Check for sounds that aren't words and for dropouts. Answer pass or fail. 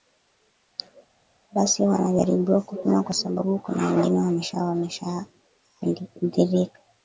pass